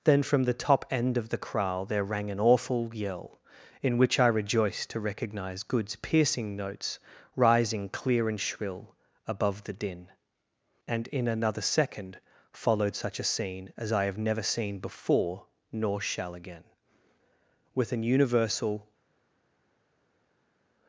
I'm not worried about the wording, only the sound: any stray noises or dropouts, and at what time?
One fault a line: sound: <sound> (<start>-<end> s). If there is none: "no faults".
no faults